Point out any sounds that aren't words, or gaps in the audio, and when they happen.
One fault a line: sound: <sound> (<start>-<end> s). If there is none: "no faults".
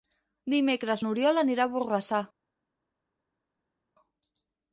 no faults